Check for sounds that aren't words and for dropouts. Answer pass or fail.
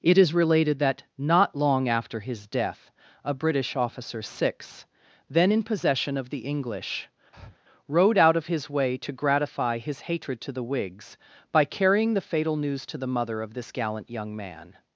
fail